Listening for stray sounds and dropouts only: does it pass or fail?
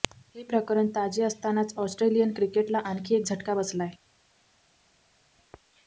pass